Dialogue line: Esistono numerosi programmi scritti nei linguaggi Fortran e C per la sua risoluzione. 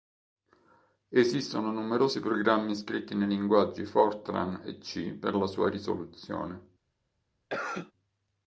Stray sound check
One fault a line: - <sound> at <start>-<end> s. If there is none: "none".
- cough at 7.5-7.9 s